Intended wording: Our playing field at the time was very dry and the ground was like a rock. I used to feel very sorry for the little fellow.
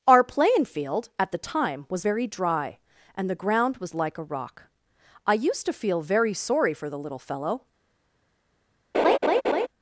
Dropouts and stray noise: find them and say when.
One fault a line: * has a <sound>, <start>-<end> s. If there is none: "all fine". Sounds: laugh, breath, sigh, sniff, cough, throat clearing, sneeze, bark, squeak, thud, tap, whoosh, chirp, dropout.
* has a laugh, 8.9-9.7 s